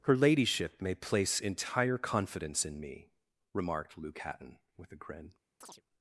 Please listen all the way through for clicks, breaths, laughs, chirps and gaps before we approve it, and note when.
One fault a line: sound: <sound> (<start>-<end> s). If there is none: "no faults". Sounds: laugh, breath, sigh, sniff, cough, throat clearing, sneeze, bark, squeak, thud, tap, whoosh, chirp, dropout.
sound: chirp (5.6-5.8 s)